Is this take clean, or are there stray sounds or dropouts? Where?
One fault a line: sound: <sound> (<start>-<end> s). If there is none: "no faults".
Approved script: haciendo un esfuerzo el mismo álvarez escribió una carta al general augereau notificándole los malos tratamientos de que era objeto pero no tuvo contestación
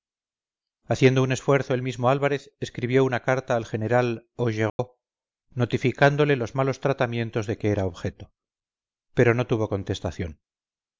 sound: dropout (4.7-4.8 s)